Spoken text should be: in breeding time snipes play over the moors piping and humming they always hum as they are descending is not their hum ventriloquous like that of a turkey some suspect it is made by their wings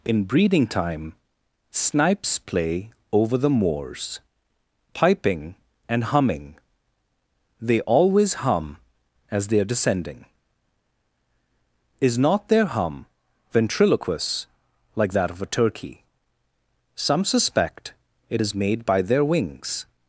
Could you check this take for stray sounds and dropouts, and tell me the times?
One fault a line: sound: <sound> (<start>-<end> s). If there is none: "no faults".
no faults